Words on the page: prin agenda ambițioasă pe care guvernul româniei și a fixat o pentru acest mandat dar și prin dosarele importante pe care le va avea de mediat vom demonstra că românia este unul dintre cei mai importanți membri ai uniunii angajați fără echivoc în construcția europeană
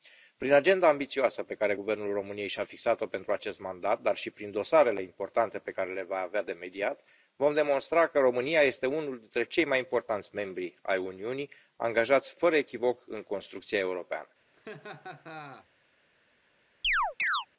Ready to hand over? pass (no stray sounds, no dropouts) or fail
fail